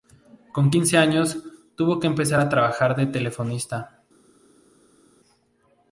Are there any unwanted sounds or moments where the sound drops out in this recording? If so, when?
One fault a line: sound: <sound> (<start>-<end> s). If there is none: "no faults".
no faults